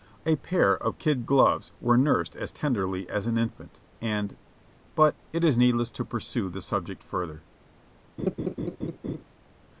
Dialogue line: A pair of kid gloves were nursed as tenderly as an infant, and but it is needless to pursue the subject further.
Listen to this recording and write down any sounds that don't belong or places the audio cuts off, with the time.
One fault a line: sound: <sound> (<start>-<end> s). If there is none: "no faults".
sound: laugh (8.2-9.2 s)